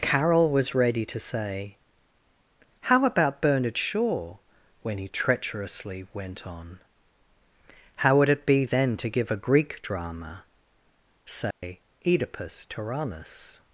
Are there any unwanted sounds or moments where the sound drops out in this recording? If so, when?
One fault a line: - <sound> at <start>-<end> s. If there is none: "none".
- dropout at 11.5-11.6 s